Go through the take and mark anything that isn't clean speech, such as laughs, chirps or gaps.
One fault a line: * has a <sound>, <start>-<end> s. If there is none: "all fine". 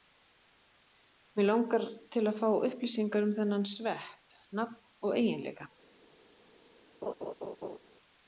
* has a laugh, 7.0-7.8 s